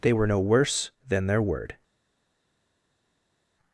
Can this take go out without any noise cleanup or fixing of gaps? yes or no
yes